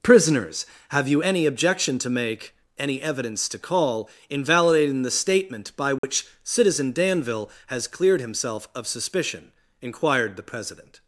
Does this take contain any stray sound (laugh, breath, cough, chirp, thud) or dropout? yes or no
yes